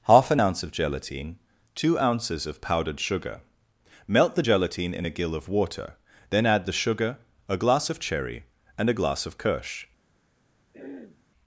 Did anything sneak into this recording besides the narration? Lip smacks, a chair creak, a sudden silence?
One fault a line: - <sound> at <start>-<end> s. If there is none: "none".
- throat clearing at 10.7-11.2 s